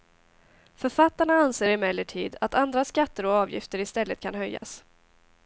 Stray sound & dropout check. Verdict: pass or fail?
fail